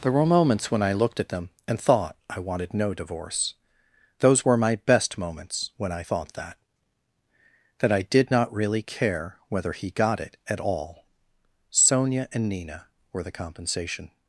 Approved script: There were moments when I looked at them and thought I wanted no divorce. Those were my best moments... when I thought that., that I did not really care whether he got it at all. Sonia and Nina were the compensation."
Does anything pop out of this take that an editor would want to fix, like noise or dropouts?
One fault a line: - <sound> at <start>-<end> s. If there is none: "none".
none